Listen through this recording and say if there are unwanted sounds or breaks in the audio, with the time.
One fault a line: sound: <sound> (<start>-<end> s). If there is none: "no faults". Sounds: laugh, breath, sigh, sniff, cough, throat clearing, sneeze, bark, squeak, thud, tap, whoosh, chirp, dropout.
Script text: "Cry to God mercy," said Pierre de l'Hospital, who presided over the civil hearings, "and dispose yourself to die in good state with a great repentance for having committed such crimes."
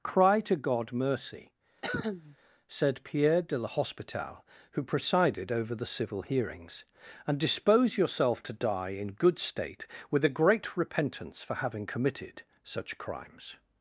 sound: cough (1.8-2.4 s)